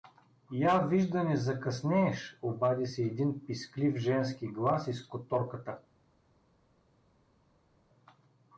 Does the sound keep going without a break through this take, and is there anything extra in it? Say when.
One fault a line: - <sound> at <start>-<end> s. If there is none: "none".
none